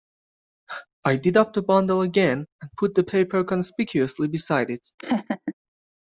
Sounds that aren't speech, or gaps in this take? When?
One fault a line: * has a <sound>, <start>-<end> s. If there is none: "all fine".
* has a laugh, 5.0-5.5 s